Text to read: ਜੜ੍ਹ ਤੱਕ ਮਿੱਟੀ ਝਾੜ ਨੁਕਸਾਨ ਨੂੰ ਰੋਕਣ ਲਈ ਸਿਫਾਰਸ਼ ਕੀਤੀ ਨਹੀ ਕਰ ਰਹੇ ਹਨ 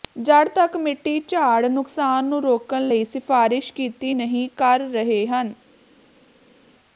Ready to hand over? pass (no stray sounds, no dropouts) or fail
pass